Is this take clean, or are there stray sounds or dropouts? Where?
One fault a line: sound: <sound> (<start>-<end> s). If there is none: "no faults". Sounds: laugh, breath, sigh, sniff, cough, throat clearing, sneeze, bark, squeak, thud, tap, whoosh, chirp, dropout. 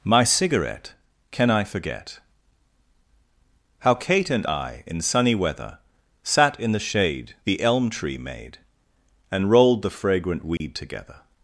sound: dropout (10.6-10.6 s)